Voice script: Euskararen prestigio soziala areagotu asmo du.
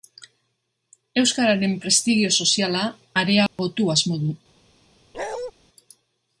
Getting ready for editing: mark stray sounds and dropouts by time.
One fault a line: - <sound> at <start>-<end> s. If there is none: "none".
- dropout at 3.5-3.6 s
- bark at 5.1-5.5 s